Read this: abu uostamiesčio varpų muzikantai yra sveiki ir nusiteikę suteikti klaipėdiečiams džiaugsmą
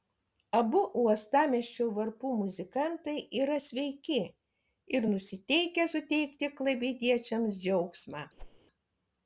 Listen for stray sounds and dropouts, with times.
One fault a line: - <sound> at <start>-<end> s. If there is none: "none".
- whoosh at 8.4-8.6 s